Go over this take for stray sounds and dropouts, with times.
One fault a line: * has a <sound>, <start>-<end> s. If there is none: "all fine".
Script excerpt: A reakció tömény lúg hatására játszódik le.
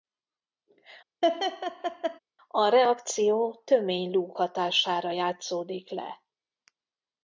* has a laugh, 1.2-2.2 s